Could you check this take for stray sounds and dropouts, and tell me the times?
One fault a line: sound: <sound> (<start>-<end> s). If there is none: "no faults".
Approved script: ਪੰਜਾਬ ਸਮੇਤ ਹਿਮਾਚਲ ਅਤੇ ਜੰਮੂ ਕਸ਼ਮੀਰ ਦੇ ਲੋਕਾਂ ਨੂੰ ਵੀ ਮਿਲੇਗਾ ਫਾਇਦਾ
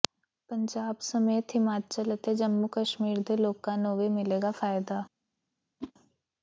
sound: whoosh (5.8-5.9 s)